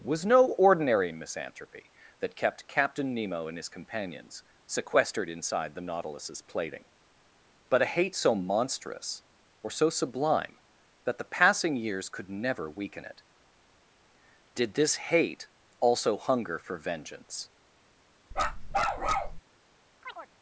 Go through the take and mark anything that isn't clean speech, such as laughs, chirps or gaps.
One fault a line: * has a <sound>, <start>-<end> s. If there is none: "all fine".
* has a bark, 18.3-19.4 s
* has a chirp, 20.0-20.3 s